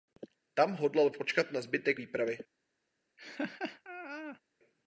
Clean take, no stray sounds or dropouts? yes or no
no